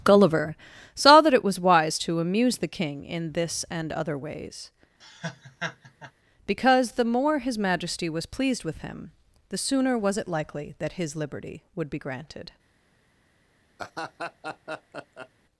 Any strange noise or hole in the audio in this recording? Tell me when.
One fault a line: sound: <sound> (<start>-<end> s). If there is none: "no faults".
sound: laugh (5.0-6.1 s)
sound: laugh (13.8-15.3 s)